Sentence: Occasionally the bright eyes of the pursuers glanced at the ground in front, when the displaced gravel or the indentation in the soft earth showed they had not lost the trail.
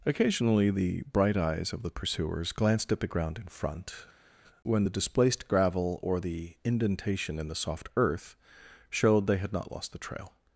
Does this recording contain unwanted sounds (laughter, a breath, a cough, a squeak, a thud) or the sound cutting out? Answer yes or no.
no